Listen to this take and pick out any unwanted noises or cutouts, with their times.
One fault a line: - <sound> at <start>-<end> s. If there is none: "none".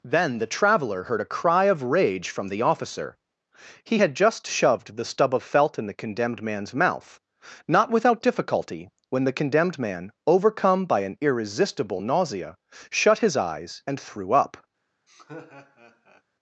- laugh at 15.1-16.2 s